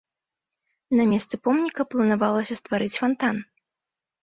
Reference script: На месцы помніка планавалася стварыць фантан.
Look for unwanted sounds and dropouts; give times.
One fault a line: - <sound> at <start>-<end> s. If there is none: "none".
none